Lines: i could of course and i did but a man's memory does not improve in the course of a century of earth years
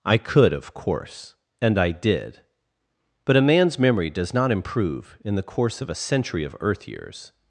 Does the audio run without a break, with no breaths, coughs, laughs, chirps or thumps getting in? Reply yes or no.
yes